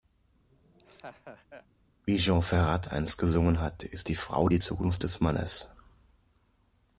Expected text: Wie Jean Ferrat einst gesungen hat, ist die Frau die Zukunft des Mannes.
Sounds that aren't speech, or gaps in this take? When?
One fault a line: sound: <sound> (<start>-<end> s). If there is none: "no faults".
sound: laugh (0.5-1.7 s)